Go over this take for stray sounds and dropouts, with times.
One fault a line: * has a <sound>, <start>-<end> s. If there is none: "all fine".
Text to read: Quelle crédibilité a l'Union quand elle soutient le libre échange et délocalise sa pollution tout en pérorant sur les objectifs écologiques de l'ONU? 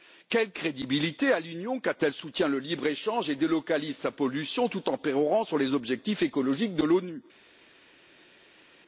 all fine